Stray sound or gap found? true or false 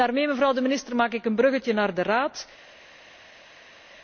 false